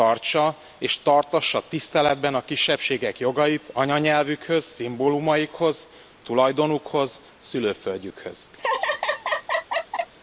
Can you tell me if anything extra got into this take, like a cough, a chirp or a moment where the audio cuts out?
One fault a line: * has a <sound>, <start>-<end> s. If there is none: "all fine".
* has a laugh, 8.6-10.1 s